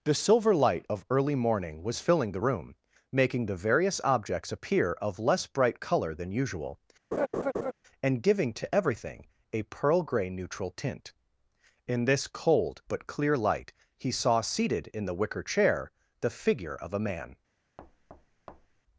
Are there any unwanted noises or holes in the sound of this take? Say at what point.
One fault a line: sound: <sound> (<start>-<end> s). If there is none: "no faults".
sound: laugh (7.1-7.7 s)
sound: thud (17.8-18.8 s)